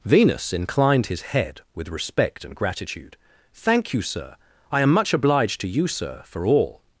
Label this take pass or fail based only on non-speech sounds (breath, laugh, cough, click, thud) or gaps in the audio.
pass